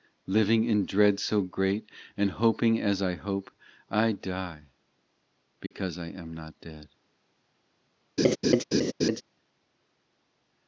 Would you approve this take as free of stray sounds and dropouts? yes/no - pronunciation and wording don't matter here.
no